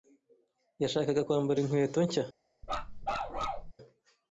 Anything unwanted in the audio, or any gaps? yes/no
yes